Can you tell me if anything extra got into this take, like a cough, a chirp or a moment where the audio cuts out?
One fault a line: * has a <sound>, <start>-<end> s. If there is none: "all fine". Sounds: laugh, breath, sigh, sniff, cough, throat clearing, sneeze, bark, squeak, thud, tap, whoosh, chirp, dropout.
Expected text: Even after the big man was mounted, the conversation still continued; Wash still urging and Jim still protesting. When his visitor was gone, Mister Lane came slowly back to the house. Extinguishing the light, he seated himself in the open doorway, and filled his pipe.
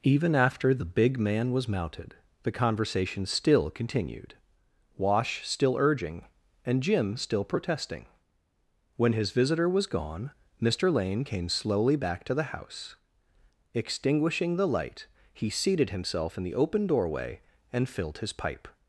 all fine